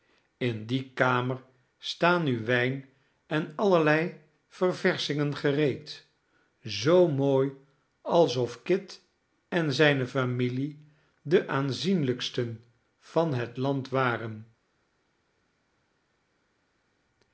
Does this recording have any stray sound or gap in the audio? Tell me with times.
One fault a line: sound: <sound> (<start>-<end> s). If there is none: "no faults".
no faults